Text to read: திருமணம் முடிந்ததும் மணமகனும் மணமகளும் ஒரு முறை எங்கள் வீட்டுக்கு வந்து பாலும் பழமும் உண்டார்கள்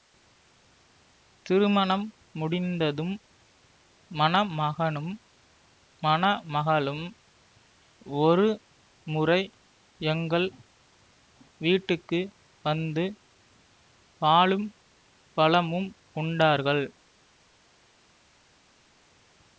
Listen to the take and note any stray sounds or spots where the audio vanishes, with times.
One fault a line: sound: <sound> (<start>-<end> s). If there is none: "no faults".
no faults